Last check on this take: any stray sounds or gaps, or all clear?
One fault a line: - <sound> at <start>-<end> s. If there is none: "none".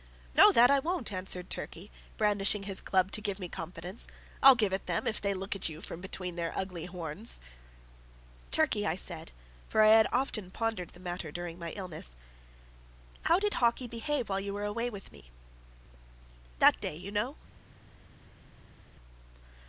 none